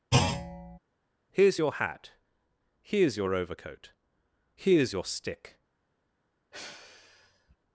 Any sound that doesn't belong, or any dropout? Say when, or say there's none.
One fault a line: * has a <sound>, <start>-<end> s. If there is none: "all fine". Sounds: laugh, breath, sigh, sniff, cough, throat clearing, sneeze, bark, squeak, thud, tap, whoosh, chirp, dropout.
* has a thud, 0.1-0.8 s
* has a sigh, 6.5-7.6 s